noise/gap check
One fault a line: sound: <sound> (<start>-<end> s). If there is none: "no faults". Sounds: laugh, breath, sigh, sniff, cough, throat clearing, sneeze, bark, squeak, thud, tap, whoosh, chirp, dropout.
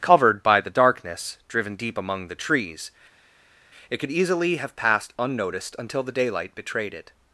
no faults